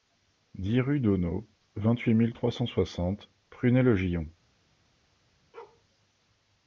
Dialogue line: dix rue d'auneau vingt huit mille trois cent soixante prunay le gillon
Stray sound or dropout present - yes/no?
yes